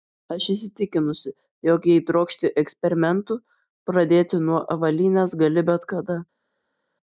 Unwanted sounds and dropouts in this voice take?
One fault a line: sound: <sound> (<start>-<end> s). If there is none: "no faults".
no faults